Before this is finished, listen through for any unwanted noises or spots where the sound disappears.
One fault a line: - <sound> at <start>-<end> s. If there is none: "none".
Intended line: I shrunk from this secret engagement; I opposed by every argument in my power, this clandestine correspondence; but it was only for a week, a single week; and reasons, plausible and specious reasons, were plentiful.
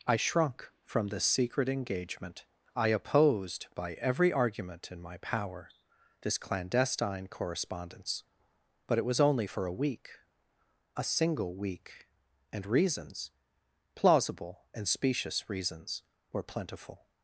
none